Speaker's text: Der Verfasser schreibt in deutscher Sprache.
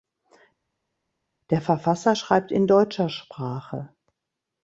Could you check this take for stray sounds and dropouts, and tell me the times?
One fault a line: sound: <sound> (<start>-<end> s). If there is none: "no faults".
no faults